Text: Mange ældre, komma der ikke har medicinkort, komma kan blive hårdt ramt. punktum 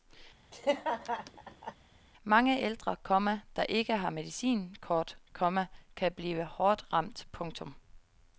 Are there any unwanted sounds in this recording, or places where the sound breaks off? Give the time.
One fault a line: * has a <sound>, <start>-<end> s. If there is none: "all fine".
* has a laugh, 0.5-1.7 s